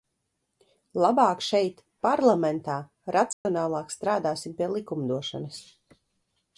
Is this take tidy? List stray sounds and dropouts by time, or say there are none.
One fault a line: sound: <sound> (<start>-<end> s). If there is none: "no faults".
sound: dropout (3.3-3.5 s)